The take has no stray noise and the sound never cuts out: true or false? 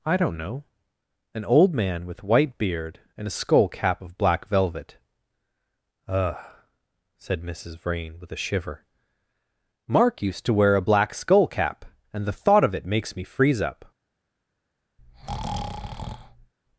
false